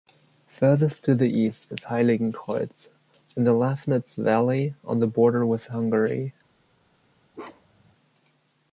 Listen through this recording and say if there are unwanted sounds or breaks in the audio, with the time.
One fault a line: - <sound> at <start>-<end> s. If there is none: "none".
- bark at 7.3-7.9 s